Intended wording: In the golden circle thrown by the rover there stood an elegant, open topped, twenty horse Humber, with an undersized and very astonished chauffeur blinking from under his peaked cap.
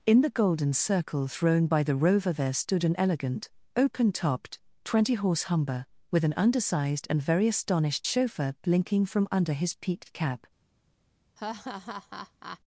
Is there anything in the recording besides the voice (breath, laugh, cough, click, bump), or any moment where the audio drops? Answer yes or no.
yes